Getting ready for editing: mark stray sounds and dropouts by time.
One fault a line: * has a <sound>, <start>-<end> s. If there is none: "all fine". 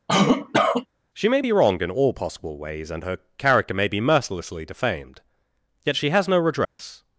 * has a cough, 0.1-0.9 s
* has a dropout, 6.6-6.8 s